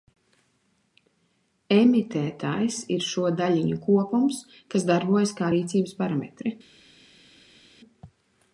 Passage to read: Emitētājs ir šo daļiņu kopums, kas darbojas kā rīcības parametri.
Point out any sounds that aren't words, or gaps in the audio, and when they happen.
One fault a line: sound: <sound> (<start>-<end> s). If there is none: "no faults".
no faults